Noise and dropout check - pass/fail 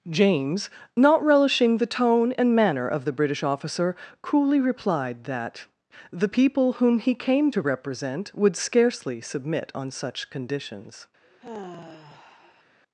fail